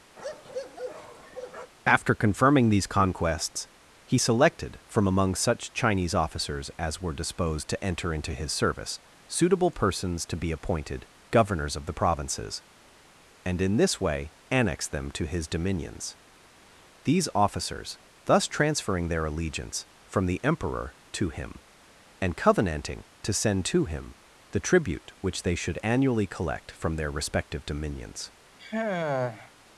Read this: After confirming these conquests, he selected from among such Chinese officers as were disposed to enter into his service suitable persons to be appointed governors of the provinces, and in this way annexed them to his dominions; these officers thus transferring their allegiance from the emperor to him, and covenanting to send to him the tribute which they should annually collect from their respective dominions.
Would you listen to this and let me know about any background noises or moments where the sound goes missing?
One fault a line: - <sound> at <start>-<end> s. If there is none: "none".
- bark at 0.2-1.7 s
- sigh at 28.6-29.5 s